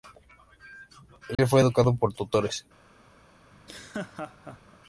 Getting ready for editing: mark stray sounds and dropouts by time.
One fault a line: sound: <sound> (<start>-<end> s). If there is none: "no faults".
sound: dropout (1.3-1.4 s)
sound: laugh (3.5-4.8 s)